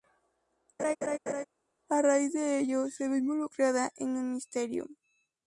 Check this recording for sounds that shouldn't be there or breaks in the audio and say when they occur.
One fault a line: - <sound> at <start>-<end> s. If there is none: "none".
- laugh at 0.8-1.5 s